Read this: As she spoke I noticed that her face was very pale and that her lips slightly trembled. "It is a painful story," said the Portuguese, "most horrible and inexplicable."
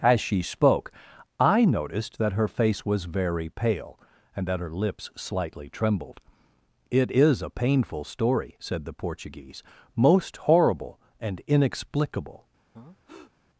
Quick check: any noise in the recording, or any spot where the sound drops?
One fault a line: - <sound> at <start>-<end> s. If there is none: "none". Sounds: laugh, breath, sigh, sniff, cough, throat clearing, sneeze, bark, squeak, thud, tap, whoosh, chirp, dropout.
- breath at 12.7-13.3 s